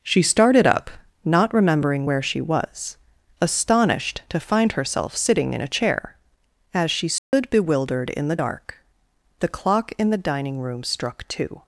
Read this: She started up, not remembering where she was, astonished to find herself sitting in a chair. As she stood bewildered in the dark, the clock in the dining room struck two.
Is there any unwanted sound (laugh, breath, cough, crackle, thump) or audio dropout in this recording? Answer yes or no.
yes